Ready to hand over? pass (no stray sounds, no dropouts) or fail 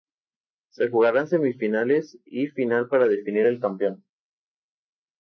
pass